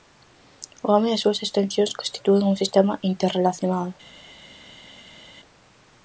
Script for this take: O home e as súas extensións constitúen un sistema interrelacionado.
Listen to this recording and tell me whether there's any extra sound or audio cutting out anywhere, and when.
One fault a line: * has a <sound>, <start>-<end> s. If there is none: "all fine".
all fine